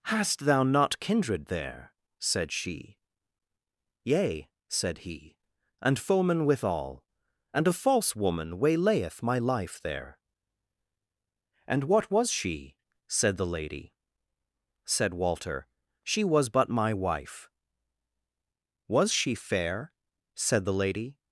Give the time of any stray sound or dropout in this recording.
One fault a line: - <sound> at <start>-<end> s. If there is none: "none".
none